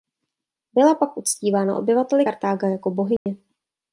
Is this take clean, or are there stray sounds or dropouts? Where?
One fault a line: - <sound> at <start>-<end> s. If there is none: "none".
- dropout at 3.2-3.3 s